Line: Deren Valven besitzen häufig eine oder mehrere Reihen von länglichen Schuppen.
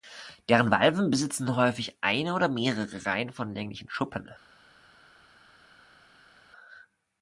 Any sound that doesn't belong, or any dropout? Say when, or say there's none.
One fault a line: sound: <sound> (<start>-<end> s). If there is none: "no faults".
no faults